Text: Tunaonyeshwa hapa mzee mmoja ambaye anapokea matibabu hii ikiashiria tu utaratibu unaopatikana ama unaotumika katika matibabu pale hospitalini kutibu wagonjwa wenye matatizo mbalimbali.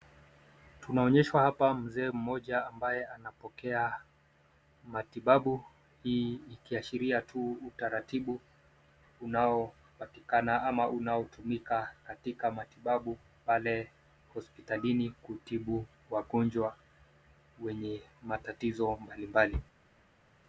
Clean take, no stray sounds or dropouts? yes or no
yes